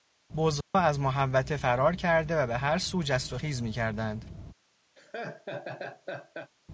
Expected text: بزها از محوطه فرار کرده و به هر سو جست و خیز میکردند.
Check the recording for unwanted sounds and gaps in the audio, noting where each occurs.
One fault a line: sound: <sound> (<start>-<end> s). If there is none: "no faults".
sound: dropout (0.6-0.7 s)
sound: laugh (5.0-6.5 s)